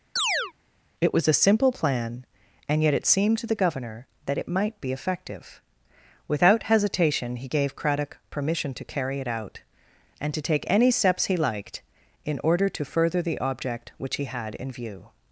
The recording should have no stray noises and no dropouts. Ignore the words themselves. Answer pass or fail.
fail